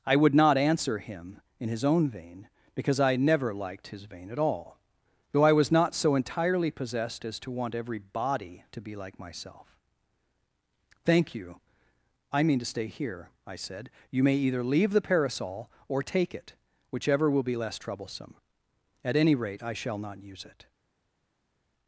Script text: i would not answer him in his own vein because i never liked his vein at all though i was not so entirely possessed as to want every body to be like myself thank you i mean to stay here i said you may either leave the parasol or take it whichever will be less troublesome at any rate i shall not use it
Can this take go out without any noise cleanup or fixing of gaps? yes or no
yes